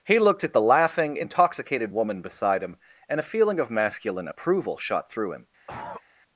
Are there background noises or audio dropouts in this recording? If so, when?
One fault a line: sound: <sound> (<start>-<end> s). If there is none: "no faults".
sound: cough (5.7-6.0 s)